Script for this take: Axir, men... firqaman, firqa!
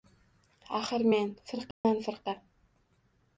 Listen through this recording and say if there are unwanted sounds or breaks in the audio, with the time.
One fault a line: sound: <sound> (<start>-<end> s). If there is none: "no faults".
sound: dropout (1.7-1.8 s)